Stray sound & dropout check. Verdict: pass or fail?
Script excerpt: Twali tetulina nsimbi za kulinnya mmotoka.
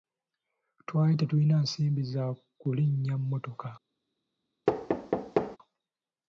fail